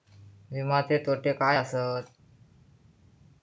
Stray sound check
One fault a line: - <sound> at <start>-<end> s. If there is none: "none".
none